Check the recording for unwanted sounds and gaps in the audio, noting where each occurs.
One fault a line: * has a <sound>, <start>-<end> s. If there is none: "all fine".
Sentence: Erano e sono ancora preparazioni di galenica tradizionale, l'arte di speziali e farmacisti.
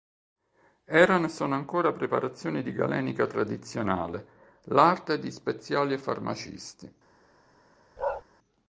* has a bark, 8.0-8.2 s